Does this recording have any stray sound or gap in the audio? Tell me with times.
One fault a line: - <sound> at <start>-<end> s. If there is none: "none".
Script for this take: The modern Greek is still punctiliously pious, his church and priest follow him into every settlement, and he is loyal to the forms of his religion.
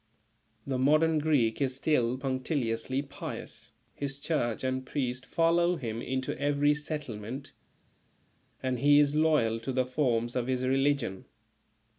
none